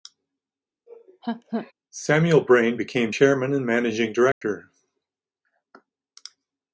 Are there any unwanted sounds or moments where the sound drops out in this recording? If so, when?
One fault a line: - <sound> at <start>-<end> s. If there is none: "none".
- laugh at 0.9-1.7 s
- dropout at 4.3-4.4 s